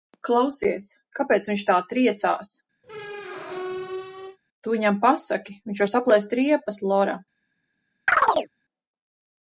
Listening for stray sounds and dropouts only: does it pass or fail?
fail